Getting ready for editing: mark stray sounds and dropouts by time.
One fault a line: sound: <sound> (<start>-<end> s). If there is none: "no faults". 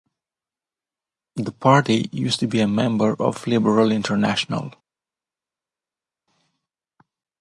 no faults